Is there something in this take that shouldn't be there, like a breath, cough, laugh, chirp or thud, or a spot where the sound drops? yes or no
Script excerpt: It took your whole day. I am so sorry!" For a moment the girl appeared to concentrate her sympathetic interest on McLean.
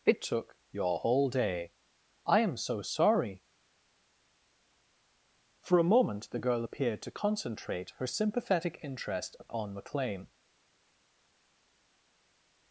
no